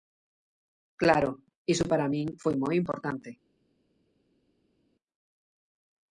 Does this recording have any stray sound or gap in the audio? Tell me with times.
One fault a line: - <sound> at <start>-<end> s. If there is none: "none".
none